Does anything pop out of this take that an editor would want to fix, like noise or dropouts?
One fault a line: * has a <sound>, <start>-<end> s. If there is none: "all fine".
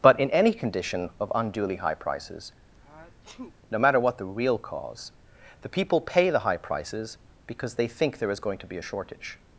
* has a sneeze, 2.7-3.5 s